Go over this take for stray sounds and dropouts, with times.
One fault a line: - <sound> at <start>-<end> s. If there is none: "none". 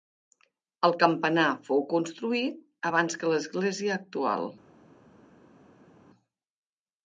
none